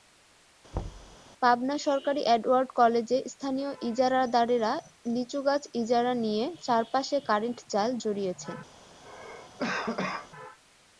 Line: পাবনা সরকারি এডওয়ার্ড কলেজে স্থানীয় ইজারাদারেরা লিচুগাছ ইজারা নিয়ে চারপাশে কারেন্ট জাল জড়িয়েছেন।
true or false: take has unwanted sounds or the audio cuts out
true